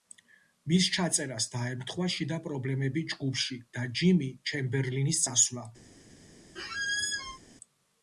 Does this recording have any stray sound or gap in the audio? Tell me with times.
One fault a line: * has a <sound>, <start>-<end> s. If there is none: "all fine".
* has a squeak, 6.6-7.4 s